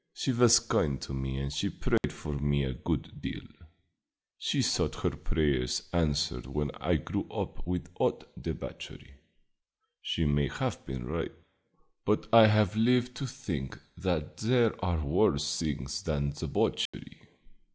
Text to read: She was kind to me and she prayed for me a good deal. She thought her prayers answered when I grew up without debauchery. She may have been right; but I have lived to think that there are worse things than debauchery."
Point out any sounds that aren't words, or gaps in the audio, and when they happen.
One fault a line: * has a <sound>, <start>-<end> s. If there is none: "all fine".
* has a dropout, 2.0-2.0 s
* has a dropout, 16.9-16.9 s